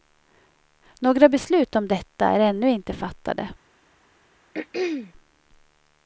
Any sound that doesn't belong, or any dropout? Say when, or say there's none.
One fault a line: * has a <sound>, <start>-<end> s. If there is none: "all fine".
* has a throat clearing, 4.5-5.1 s